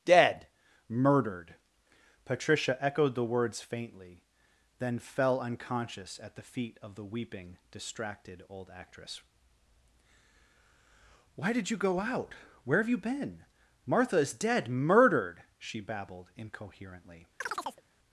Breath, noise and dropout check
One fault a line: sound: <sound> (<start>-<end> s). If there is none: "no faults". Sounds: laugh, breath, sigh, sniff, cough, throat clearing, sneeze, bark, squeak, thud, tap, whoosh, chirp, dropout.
sound: chirp (17.4-17.8 s)